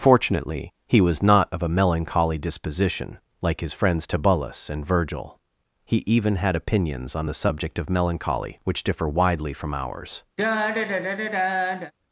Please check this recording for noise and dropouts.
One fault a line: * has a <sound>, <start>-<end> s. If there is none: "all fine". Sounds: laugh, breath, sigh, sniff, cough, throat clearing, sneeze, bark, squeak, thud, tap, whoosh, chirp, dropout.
* has a sigh, 10.4-11.9 s